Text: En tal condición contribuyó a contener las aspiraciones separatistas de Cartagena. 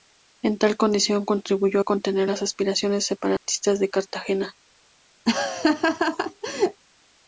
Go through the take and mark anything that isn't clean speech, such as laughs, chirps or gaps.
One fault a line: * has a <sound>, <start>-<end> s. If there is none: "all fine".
* has a dropout, 3.4-3.5 s
* has a laugh, 5.3-6.8 s